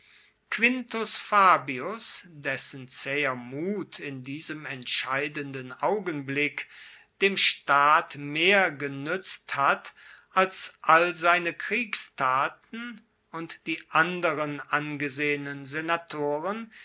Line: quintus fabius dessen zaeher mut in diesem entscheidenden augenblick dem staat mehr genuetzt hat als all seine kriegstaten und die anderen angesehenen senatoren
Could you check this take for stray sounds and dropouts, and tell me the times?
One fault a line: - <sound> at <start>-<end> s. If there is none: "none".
none